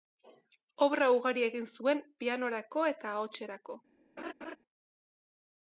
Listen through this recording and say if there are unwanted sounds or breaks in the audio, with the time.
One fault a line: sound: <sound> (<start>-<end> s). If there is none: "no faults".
sound: laugh (4.2-4.6 s)